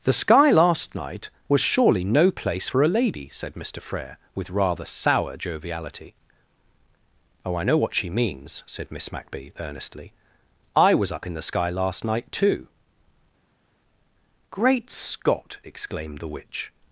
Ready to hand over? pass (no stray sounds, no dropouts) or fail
pass